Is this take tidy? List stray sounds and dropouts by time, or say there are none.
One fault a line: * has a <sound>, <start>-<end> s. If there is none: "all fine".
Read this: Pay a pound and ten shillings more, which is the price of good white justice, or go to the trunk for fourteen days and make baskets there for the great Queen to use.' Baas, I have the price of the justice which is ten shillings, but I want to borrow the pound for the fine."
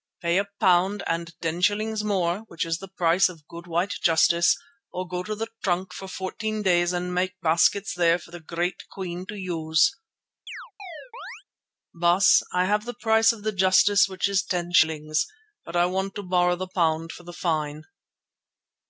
* has a chirp, 10.5-11.4 s